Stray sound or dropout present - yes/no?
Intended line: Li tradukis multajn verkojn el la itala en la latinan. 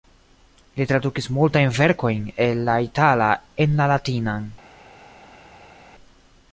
no